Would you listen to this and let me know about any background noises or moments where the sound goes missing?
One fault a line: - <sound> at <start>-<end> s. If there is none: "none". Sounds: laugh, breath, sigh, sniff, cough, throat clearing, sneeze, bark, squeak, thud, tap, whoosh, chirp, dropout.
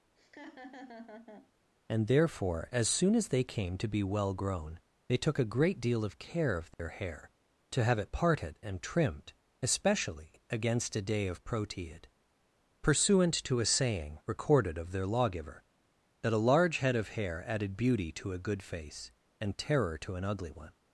- laugh at 0.2-1.5 s
- dropout at 6.7-6.8 s